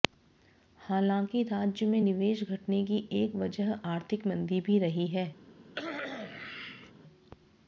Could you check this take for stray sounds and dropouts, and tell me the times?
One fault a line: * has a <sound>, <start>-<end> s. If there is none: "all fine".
* has a cough, 5.7-6.9 s